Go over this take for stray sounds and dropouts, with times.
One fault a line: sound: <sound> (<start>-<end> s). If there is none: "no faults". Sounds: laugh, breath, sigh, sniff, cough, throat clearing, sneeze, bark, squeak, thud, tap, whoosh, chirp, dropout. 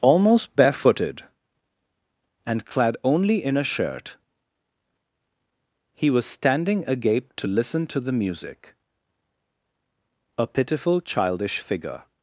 no faults